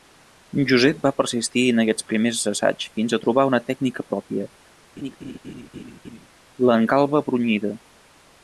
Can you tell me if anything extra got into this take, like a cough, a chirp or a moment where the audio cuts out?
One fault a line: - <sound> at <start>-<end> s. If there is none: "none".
- laugh at 5.0-6.3 s